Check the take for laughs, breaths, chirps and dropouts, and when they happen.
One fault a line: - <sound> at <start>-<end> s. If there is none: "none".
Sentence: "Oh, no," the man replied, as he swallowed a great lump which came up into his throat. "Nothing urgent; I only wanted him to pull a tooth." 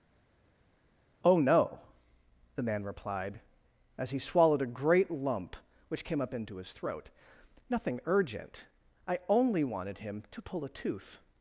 none